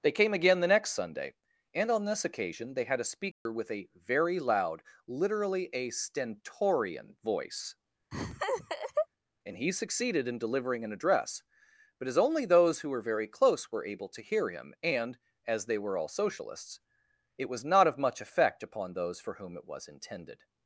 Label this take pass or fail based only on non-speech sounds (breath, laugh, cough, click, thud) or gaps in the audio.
fail